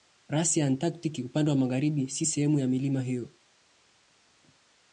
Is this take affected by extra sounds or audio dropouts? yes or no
no